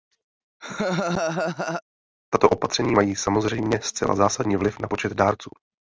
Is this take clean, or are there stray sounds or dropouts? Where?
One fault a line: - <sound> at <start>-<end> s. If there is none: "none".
- laugh at 0.6-1.8 s